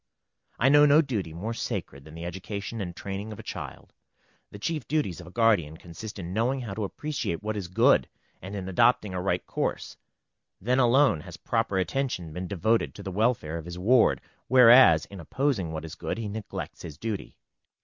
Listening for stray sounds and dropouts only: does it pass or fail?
pass